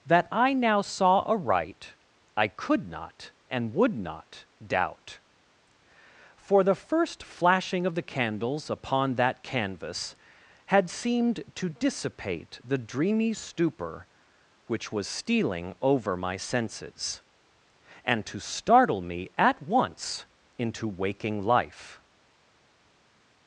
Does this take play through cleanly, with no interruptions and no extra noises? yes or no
yes